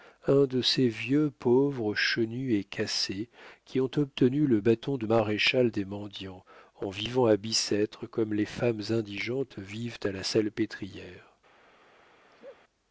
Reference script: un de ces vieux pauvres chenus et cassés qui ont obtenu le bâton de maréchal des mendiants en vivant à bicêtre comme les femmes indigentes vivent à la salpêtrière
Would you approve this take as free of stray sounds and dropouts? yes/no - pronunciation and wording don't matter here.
no